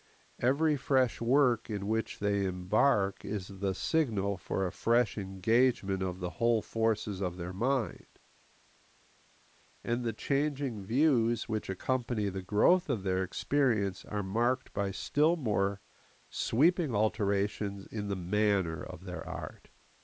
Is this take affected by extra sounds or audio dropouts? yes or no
no